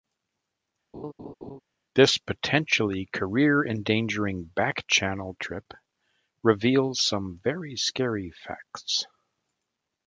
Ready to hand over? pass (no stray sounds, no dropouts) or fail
fail